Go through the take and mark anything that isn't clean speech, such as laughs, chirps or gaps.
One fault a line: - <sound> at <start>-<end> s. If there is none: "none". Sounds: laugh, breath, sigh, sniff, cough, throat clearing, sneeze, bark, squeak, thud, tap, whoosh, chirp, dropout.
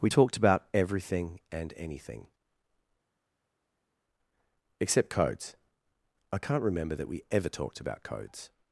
none